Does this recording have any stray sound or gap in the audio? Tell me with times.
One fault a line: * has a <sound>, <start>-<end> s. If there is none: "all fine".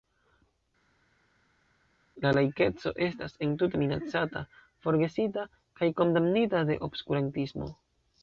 all fine